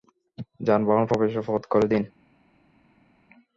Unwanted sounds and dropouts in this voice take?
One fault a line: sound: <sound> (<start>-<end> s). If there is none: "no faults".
no faults